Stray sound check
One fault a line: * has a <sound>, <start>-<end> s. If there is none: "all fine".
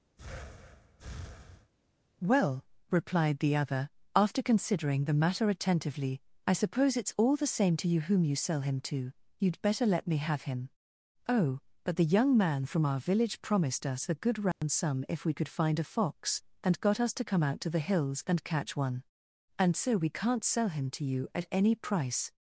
* has a breath, 0.2-1.7 s
* has a dropout, 14.5-14.6 s